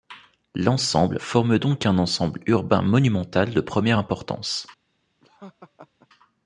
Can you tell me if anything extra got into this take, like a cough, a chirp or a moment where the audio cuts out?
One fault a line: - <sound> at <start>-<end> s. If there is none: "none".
- laugh at 5.2-6.1 s